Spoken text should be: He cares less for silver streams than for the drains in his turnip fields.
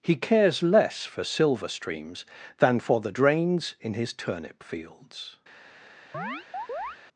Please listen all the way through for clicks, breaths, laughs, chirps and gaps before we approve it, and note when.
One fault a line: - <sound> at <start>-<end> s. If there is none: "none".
- chirp at 6.1-7.0 s